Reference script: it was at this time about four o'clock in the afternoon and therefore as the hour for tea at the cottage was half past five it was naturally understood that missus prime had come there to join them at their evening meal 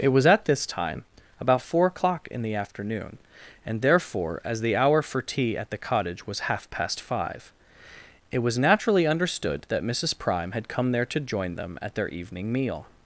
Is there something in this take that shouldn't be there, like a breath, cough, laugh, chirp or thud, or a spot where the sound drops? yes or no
no